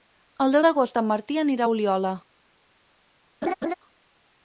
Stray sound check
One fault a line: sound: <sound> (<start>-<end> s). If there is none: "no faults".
sound: laugh (3.4-3.7 s)